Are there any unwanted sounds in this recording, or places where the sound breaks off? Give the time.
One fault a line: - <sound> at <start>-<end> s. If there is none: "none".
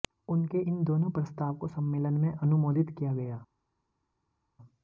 none